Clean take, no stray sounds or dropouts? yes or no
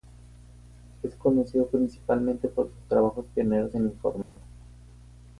no